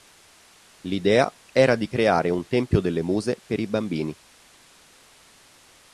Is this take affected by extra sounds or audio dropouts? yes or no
no